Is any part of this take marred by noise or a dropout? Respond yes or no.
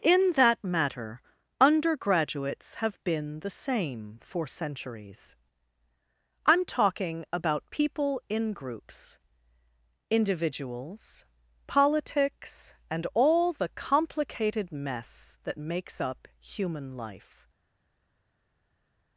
no